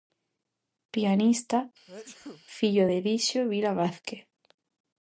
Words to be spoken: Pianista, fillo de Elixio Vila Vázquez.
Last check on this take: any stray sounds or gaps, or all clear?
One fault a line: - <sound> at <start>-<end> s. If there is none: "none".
- sneeze at 1.9-2.5 s